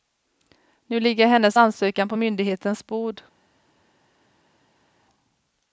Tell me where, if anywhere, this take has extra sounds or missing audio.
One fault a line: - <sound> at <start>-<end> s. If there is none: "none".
none